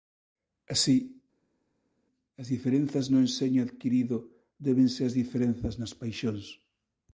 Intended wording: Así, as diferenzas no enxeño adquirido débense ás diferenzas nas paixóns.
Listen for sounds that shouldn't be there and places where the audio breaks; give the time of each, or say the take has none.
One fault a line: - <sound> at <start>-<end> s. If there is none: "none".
none